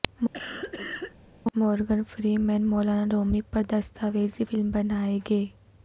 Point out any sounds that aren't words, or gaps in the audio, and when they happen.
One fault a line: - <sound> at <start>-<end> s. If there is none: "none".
- cough at 0.3-1.2 s